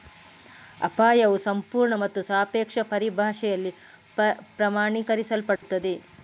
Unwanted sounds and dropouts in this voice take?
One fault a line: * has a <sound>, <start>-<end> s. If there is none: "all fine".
* has a dropout, 5.6-5.6 s